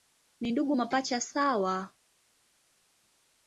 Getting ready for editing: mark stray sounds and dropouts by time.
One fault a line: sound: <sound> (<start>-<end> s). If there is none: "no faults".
no faults